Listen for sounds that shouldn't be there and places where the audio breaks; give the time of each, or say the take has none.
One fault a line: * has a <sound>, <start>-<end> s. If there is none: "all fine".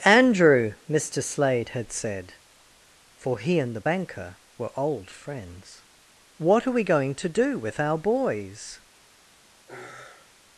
* has a sigh, 9.7-10.4 s